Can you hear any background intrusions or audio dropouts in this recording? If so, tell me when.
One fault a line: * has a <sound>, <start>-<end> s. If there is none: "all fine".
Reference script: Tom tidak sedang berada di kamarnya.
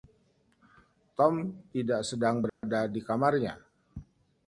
* has a dropout, 2.5-2.6 s